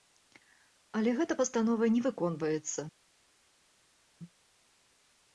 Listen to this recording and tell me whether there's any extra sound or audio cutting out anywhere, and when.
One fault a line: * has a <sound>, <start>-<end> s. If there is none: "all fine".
all fine